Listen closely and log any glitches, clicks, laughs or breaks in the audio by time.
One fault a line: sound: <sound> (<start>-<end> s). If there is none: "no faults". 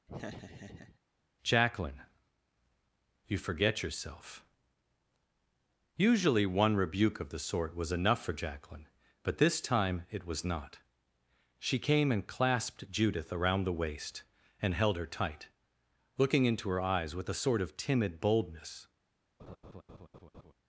sound: laugh (0.1-1.0 s)
sound: laugh (19.4-20.5 s)